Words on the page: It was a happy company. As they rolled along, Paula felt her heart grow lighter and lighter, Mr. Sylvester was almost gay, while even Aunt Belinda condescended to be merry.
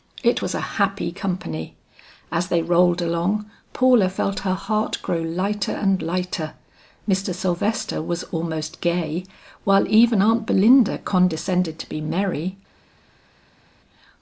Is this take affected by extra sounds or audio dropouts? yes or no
no